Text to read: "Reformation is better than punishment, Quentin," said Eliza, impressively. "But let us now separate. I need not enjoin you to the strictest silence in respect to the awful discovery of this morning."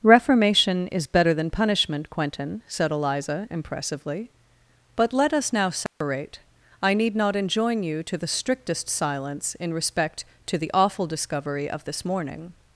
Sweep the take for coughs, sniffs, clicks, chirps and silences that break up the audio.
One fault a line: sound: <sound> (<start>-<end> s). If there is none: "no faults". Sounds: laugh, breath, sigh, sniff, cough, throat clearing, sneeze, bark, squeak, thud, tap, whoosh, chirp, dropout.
sound: dropout (5.9-6.0 s)